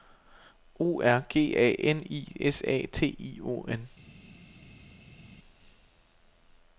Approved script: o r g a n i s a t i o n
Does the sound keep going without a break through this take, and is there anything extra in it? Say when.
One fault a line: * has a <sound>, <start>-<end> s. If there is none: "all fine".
all fine